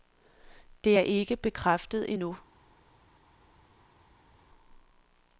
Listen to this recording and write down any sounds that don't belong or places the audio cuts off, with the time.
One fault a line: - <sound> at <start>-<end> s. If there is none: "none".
none